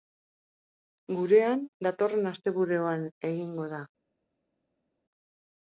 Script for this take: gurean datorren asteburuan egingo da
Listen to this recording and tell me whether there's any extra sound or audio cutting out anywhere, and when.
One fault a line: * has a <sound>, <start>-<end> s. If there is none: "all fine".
all fine